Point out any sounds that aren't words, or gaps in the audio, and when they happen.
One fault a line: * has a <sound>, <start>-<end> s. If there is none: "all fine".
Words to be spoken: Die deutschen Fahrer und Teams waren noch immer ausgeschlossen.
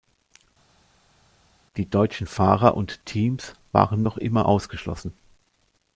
all fine